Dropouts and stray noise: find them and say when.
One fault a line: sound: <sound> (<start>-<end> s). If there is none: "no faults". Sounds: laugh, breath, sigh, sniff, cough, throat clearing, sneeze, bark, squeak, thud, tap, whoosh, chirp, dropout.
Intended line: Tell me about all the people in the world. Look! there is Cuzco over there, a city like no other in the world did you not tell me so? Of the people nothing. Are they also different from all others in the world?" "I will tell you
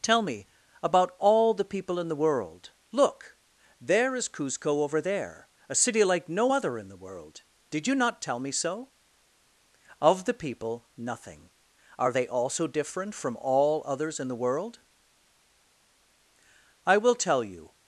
no faults